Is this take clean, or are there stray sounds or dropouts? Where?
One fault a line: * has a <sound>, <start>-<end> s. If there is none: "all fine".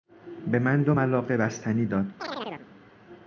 * has a chirp, 2.2-2.7 s